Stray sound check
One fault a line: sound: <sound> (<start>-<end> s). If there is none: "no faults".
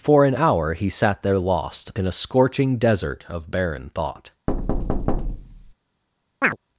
sound: thud (4.5-5.7 s)
sound: chirp (6.4-6.6 s)